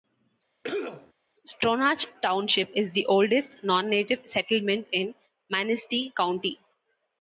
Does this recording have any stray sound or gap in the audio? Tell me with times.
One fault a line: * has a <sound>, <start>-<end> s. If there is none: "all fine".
* has a cough, 0.6-1.1 s